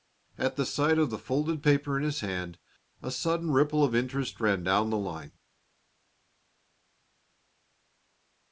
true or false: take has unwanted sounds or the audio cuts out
false